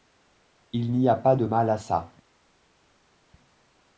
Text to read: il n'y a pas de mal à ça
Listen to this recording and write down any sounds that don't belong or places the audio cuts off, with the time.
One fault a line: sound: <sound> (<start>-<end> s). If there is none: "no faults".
no faults